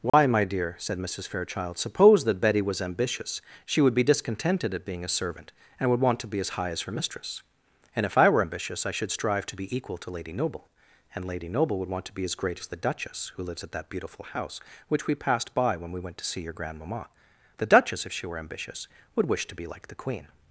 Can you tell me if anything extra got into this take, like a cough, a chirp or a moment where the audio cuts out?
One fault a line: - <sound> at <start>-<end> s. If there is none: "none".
- dropout at 0.1-0.1 s